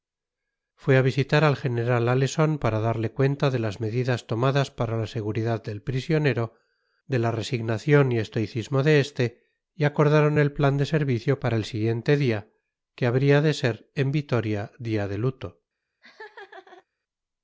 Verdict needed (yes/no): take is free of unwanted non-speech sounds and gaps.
no